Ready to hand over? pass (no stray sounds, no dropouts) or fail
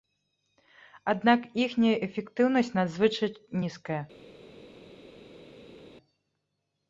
pass